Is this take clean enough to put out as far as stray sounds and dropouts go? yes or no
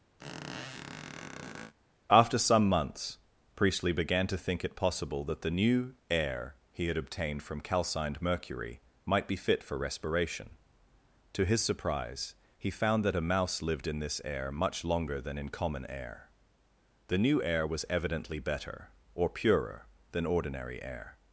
no